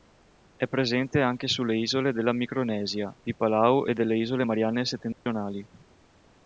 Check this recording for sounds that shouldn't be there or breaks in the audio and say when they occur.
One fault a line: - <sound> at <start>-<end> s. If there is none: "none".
- dropout at 5.1-5.3 s